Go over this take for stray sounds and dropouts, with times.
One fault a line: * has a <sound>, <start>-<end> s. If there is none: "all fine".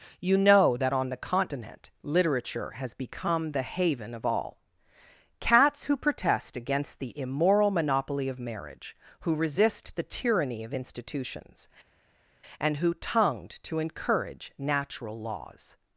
all fine